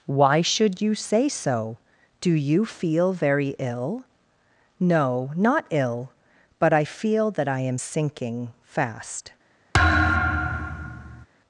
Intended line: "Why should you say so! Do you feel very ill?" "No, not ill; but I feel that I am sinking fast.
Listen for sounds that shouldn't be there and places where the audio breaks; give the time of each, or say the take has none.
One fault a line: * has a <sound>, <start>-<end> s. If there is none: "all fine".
* has a thud, 9.7-11.3 s